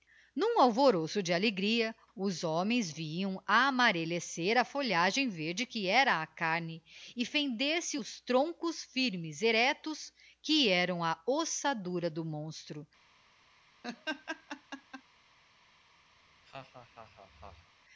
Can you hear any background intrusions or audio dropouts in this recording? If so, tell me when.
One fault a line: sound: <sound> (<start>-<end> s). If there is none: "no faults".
sound: laugh (13.8-15.0 s)
sound: laugh (16.2-17.7 s)